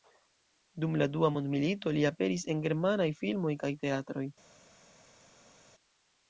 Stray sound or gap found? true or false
false